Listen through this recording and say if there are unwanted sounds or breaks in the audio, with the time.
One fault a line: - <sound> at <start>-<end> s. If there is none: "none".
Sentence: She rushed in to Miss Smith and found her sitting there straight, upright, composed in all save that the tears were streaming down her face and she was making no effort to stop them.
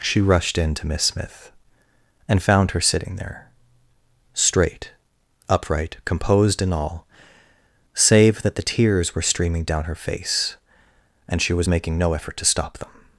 none